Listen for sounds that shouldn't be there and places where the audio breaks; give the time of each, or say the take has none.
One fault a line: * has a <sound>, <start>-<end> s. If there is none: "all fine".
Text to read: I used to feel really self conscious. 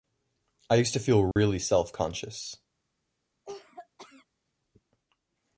* has a dropout, 1.3-1.4 s
* has a cough, 3.4-4.3 s